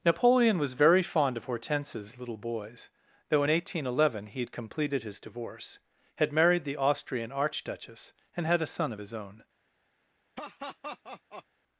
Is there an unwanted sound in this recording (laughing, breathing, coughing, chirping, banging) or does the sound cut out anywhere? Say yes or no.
yes